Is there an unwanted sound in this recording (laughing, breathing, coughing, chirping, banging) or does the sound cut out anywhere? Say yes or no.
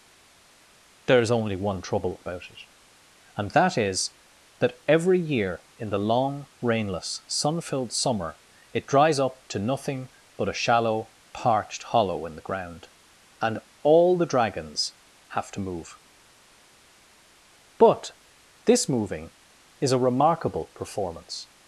no